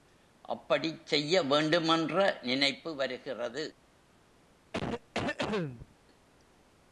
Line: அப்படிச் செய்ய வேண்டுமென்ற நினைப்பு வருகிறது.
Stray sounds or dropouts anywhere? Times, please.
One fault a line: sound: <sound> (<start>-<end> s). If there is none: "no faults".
sound: cough (4.7-6.0 s)